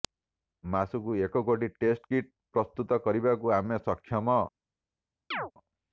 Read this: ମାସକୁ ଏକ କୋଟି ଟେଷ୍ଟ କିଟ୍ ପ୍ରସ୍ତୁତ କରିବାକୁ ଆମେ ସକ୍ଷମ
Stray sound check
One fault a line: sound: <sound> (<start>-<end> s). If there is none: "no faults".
sound: chirp (5.3-5.5 s)